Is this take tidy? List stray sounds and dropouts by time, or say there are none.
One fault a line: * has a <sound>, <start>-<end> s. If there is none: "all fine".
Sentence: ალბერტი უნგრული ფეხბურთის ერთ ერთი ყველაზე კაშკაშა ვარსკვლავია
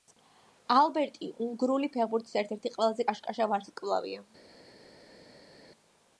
all fine